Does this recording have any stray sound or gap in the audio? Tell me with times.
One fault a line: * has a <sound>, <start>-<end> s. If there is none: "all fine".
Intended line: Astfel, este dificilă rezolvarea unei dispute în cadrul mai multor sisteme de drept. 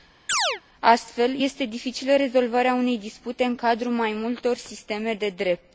* has a chirp, 0.3-0.6 s